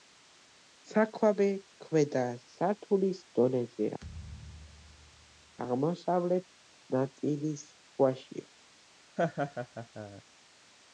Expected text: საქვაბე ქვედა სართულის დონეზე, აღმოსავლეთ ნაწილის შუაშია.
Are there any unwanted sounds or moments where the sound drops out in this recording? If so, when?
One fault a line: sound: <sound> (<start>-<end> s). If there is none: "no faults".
sound: thud (4.0-5.6 s)
sound: laugh (9.2-10.2 s)